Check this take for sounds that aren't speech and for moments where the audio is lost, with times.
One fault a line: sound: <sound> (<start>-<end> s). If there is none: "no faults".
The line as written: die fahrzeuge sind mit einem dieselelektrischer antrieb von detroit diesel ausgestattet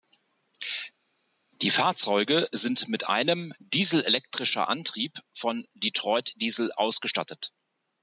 no faults